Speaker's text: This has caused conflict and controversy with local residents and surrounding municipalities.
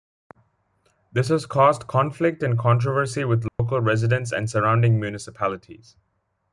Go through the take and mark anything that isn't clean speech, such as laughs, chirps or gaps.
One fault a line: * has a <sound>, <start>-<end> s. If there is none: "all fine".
* has a dropout, 3.5-3.6 s